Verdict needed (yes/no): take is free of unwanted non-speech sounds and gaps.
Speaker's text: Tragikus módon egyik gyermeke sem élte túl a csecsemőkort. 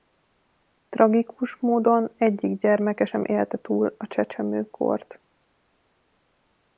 yes